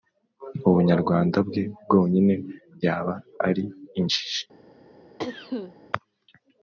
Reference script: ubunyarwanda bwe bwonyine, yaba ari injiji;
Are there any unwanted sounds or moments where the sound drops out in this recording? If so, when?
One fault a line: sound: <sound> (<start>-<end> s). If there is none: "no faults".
sound: cough (5.2-5.7 s)